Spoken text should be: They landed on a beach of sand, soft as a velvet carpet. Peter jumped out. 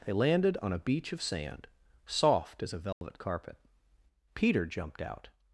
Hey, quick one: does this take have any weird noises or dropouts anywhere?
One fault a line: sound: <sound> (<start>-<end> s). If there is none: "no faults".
sound: dropout (2.9-3.0 s)